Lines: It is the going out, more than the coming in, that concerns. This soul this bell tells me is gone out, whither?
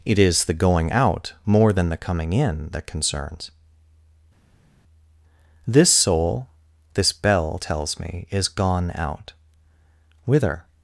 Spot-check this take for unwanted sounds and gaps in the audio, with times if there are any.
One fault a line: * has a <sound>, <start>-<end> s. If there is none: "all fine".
all fine